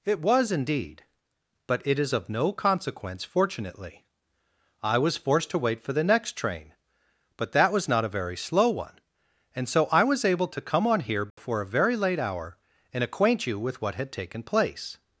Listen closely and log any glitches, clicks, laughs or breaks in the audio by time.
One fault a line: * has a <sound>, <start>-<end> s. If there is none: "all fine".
* has a dropout, 11.3-11.4 s